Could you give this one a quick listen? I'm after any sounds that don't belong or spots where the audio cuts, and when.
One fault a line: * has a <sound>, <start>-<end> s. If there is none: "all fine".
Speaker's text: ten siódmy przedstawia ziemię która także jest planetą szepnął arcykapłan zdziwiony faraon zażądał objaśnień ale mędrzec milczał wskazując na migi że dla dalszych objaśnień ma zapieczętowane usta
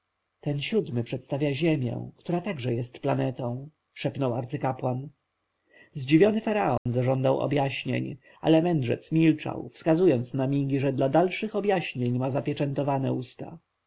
* has a dropout, 6.8-6.9 s